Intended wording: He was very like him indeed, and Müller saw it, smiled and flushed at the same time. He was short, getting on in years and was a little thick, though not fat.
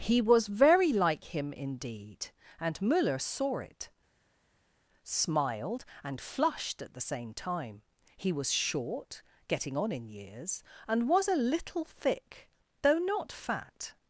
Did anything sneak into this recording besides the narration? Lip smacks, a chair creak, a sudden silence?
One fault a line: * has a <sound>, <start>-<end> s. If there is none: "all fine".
all fine